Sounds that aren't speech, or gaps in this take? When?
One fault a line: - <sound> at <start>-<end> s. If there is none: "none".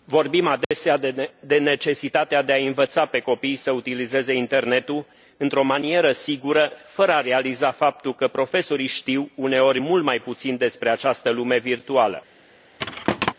- dropout at 0.6-0.7 s
- thud at 12.8-13.3 s